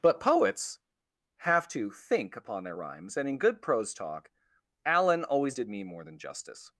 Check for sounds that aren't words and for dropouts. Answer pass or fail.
pass